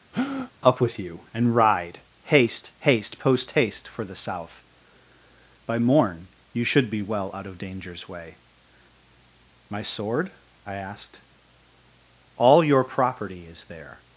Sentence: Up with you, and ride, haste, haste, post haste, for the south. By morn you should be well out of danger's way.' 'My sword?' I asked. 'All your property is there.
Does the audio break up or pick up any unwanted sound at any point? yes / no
yes